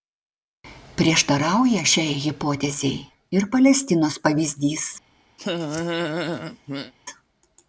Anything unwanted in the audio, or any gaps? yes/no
yes